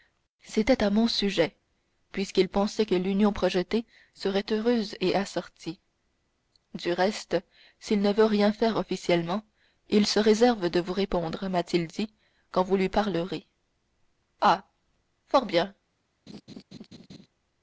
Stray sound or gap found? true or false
true